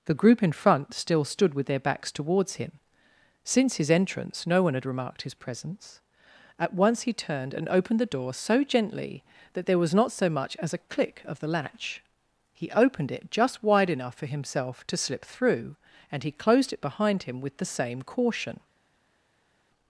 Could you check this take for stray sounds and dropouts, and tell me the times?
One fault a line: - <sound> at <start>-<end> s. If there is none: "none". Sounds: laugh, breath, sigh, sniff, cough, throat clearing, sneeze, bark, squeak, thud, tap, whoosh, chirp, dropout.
none